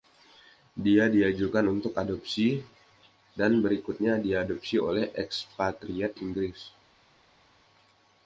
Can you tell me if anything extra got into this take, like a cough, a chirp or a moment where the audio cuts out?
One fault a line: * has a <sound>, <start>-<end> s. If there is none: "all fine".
all fine